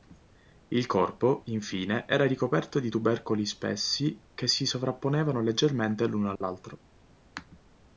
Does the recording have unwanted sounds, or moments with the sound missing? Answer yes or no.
yes